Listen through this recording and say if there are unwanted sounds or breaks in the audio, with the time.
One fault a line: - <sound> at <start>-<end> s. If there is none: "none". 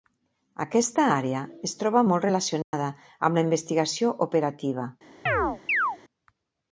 - dropout at 2.6-2.7 s
- chirp at 5.3-6.0 s